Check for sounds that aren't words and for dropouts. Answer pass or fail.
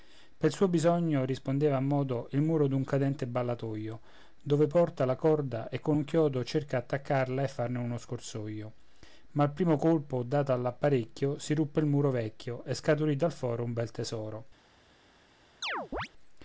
fail